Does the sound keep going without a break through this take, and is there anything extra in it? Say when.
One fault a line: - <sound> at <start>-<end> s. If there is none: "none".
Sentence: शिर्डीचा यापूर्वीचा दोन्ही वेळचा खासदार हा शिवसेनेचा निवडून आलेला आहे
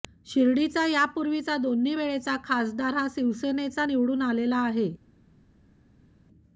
none